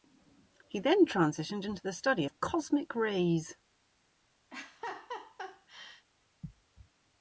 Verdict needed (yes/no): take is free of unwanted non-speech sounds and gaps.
no